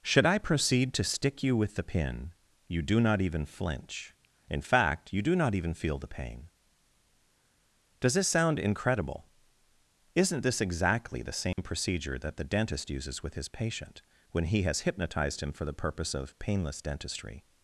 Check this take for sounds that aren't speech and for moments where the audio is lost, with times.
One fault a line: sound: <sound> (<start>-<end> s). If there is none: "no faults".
sound: dropout (11.5-11.6 s)